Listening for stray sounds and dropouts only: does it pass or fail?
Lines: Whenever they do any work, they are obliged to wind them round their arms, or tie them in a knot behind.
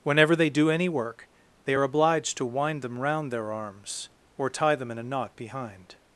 pass